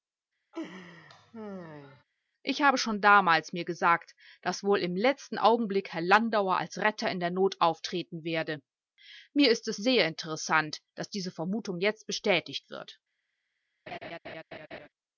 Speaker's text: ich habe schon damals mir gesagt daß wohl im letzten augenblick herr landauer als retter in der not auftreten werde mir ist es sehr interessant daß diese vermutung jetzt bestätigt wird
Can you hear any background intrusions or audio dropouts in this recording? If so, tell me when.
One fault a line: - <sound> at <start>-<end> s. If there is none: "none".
- laugh at 0.5-2.0 s
- laugh at 13.9-14.9 s